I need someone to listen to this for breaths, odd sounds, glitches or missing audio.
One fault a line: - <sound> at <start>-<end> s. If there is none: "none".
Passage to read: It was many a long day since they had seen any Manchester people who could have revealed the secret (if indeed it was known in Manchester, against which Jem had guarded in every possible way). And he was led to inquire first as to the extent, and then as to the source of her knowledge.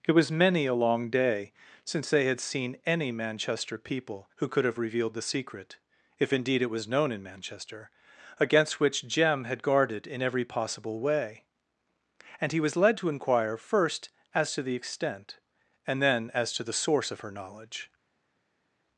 none